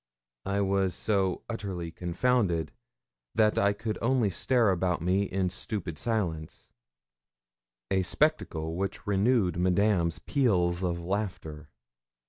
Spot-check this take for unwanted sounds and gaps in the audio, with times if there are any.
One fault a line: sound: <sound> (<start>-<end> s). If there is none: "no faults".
no faults